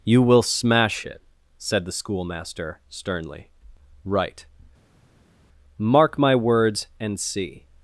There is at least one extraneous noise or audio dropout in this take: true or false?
false